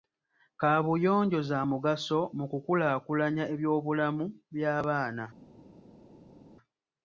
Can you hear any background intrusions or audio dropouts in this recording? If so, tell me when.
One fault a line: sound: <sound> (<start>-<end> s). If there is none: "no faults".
no faults